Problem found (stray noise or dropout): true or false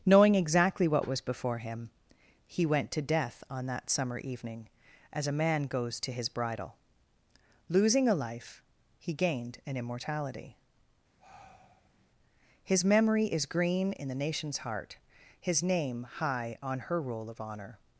true